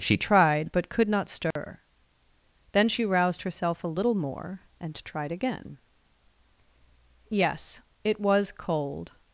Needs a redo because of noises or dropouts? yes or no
yes